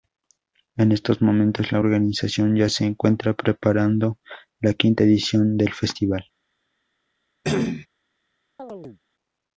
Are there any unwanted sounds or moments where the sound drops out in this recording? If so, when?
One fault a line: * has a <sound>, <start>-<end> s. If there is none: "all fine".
* has a cough, 7.4-7.9 s
* has a chirp, 8.6-9.0 s